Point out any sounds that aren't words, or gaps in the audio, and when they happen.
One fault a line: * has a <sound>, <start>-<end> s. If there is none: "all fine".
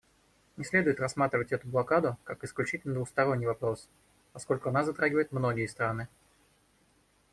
all fine